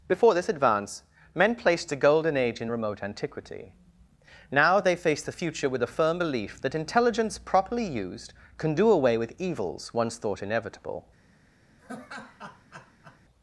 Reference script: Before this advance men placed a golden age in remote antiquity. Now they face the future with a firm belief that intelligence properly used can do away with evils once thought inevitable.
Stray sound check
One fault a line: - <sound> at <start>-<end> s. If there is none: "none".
- laugh at 11.8-13.2 s